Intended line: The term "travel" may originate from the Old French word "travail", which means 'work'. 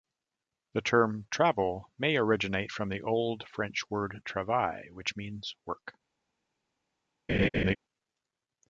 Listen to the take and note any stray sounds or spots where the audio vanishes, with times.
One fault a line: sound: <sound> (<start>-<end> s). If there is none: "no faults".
sound: laugh (7.3-7.8 s)